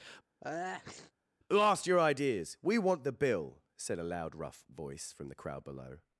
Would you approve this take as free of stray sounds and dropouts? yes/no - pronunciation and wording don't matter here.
no